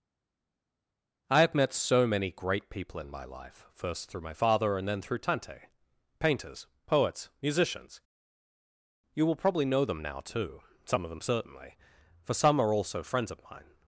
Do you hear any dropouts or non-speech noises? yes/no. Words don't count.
no